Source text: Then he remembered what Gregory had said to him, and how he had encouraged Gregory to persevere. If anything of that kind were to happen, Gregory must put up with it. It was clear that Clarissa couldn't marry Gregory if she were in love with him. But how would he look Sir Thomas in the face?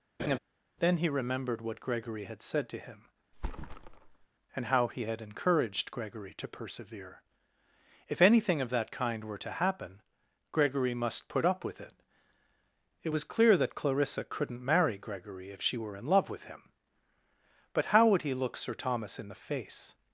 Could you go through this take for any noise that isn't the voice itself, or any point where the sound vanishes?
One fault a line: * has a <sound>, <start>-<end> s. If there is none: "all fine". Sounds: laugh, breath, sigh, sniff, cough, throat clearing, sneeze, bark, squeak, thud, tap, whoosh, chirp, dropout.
* has a laugh, 0.2-0.4 s
* has a thud, 3.3-4.3 s